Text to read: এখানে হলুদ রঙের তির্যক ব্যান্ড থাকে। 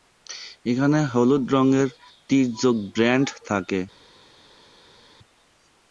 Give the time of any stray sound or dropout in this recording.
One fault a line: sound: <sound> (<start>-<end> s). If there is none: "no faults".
no faults